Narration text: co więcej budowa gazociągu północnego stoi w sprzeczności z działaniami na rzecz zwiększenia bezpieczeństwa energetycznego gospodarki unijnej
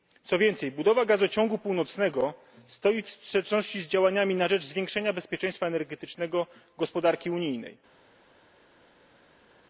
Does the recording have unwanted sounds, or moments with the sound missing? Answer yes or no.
no